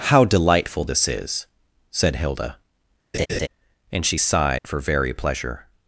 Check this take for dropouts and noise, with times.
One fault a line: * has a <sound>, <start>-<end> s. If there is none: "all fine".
* has a laugh, 3.1-3.5 s
* has a dropout, 4.6-4.6 s